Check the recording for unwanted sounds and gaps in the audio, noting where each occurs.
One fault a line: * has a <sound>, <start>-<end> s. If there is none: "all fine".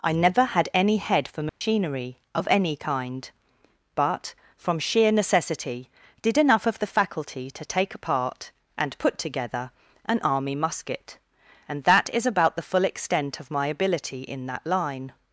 * has a dropout, 1.5-1.6 s